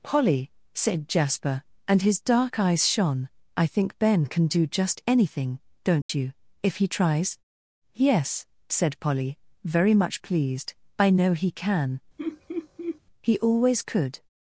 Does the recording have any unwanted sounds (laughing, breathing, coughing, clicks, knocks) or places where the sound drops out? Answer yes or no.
yes